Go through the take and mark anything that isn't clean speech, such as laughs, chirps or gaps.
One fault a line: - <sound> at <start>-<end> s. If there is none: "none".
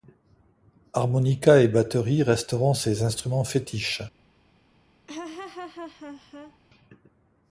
- laugh at 5.1-6.6 s